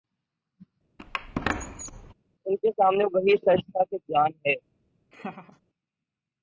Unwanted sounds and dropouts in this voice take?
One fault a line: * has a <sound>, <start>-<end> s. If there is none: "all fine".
* has a squeak, 1.0-2.1 s
* has a laugh, 5.1-5.6 s